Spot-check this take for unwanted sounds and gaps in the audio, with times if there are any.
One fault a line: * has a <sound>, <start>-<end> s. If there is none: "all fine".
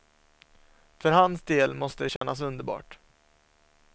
* has a dropout, 2.2-2.2 s